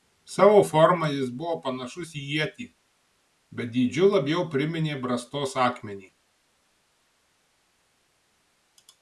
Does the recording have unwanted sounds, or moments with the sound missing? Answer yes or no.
no